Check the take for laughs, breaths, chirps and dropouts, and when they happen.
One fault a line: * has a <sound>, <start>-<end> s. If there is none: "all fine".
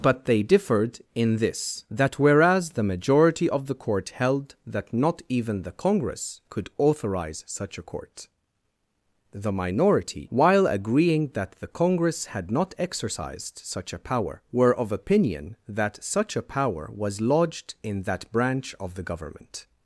all fine